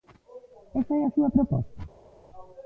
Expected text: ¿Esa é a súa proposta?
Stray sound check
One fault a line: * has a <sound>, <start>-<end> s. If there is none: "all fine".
all fine